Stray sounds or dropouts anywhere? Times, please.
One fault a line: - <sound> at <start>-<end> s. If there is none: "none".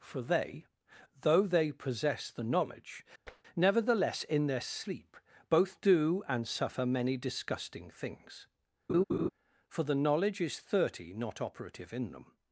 - tap at 3.3-3.4 s
- laugh at 8.9-9.3 s